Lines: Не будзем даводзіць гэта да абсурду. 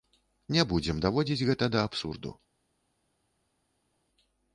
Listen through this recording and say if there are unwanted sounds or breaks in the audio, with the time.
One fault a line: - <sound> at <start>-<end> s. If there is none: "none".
none